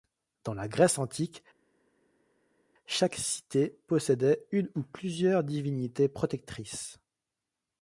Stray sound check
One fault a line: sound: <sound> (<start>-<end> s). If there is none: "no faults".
no faults